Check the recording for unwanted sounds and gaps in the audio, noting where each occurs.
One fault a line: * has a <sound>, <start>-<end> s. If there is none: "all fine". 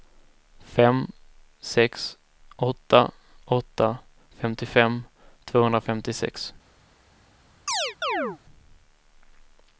* has a chirp, 7.7-8.4 s